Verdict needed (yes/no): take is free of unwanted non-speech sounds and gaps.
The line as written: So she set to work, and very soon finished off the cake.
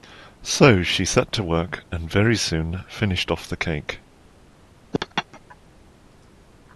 no